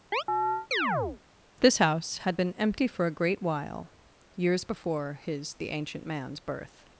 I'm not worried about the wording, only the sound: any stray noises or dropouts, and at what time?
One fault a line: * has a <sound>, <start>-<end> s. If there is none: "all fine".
* has a chirp, 0.1-1.2 s